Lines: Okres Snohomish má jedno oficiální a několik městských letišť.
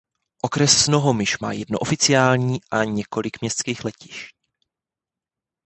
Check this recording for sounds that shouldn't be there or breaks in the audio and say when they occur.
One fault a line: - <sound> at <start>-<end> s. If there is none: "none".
none